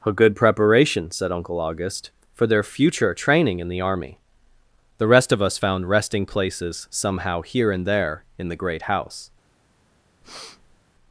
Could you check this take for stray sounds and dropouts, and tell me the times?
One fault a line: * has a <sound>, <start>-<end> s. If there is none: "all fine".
* has a breath, 10.2-10.8 s